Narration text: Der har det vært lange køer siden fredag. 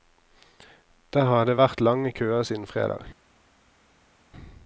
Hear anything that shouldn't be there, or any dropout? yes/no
no